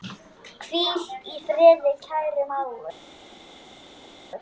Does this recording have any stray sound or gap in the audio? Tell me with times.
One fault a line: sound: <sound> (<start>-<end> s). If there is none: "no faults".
no faults